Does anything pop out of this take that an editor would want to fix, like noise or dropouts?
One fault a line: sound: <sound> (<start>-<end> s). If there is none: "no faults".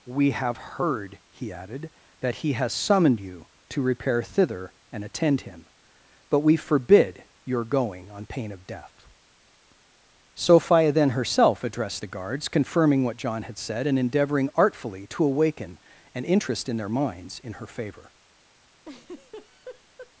sound: laugh (18.8-20.1 s)